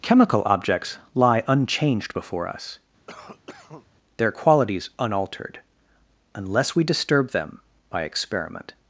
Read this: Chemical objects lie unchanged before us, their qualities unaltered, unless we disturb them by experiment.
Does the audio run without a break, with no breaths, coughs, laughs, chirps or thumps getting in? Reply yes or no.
no